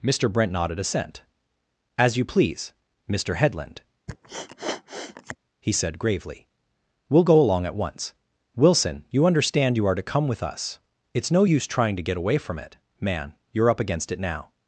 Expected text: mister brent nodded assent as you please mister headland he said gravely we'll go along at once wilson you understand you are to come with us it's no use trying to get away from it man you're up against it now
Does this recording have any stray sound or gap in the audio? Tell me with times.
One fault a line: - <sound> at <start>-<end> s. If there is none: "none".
- sniff at 4.1-5.4 s